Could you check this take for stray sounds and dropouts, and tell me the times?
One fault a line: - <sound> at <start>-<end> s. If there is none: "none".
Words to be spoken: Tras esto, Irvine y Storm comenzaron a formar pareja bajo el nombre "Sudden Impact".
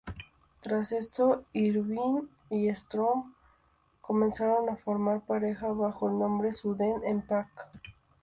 none